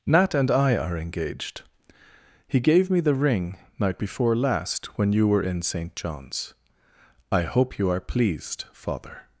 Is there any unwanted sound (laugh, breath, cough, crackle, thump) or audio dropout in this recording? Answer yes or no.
no